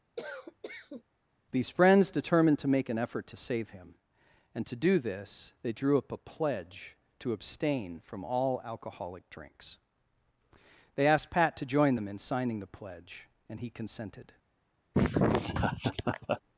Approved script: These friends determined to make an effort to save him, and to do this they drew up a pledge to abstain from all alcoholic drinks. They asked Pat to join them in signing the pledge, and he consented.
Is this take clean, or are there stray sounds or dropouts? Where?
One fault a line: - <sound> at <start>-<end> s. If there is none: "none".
- cough at 0.2-1.0 s
- laugh at 14.9-16.4 s